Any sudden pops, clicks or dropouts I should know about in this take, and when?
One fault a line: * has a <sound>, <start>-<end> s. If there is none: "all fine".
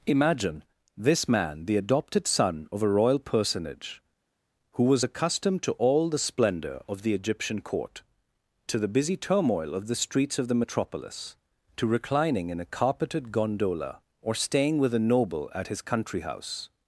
all fine